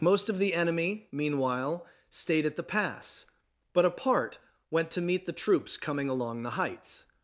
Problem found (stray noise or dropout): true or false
false